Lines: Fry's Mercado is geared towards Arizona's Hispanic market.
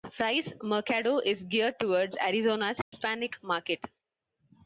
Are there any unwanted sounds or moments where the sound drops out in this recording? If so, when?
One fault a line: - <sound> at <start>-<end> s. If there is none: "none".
- dropout at 2.8-2.9 s